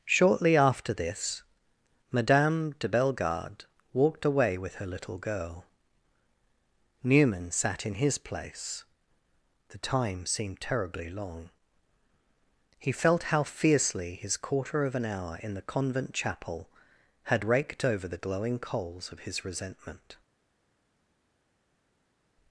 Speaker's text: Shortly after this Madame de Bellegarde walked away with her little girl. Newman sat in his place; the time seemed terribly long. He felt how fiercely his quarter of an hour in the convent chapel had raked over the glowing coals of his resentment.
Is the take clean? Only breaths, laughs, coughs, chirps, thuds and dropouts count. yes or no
yes